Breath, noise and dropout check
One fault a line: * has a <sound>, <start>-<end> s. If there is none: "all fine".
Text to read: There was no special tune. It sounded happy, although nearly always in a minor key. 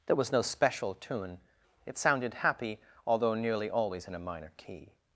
all fine